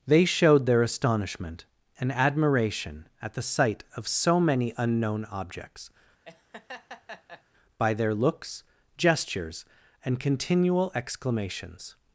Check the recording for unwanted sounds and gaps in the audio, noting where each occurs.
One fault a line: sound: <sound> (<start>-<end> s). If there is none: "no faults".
sound: laugh (6.2-7.4 s)